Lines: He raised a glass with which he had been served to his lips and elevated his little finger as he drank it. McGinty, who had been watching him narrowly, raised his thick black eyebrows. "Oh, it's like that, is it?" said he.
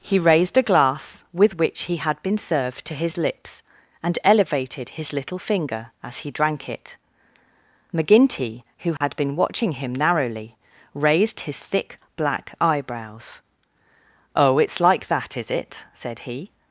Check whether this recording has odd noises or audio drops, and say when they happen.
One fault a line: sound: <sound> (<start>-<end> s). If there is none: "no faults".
sound: dropout (9.0-9.0 s)